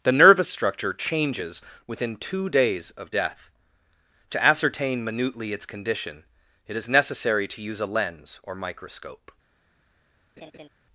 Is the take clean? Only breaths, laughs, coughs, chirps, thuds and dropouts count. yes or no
no